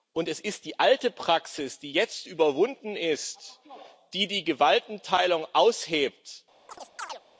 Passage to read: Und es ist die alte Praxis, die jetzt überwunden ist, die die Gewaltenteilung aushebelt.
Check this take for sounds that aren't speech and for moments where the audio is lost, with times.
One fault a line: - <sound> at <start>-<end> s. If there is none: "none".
- chirp at 6.7-7.2 s